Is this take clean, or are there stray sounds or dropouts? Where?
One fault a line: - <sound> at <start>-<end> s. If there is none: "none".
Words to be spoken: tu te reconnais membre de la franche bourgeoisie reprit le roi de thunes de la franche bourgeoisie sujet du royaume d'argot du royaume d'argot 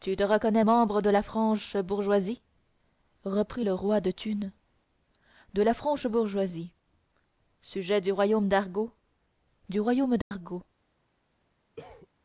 - dropout at 10.2-10.3 s
- cough at 11.8-12.1 s